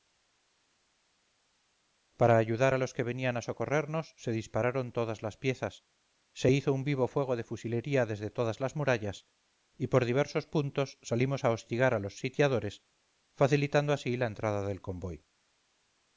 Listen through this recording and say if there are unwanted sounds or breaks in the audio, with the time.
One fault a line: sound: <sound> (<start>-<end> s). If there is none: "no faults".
no faults